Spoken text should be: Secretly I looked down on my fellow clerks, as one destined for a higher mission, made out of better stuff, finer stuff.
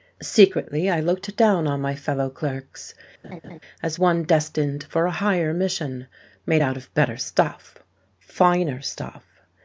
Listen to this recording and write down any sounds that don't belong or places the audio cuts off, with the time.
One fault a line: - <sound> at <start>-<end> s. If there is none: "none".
- laugh at 3.2-3.6 s